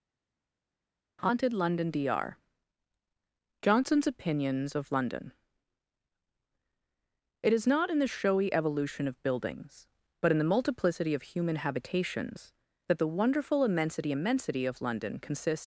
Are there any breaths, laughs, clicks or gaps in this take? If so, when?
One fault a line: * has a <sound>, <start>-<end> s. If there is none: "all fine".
all fine